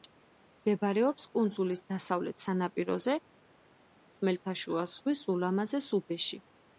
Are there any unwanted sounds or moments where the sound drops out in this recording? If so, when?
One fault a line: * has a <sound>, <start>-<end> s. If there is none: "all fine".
all fine